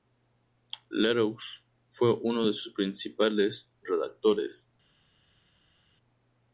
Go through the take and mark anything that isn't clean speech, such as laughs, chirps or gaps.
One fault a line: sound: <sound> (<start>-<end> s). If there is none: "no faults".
no faults